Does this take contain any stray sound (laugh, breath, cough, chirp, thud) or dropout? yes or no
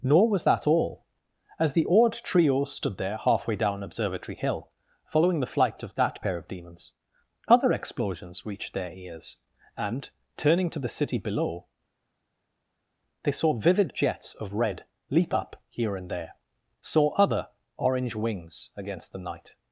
no